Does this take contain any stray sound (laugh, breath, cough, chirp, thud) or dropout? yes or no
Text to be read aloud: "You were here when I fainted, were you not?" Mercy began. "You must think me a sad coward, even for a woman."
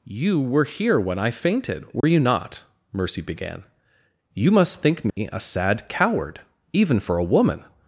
yes